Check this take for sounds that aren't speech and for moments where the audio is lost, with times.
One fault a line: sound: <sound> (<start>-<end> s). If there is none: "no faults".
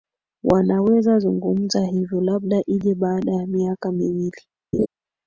sound: laugh (4.7-4.9 s)